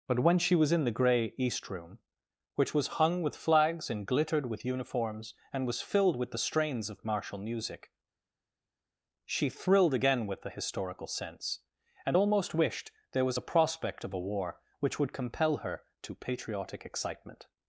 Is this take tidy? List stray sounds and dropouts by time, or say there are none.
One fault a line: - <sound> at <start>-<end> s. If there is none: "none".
none